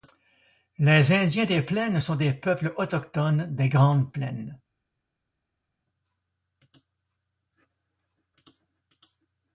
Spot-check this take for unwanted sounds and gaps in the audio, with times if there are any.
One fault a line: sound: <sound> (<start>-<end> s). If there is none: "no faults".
no faults